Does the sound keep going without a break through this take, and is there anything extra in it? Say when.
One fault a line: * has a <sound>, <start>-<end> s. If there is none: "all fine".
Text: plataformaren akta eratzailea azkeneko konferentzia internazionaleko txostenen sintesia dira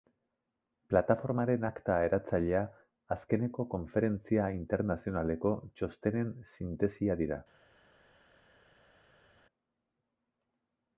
all fine